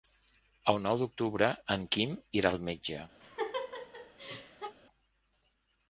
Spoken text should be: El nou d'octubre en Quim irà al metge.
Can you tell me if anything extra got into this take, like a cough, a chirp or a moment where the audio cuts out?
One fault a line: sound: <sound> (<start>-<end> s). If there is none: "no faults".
sound: laugh (3.2-4.8 s)